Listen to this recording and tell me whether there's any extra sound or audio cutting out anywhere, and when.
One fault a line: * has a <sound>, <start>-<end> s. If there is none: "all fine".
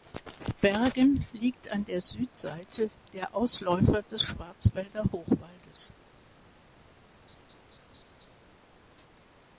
* has a laugh, 7.3-8.4 s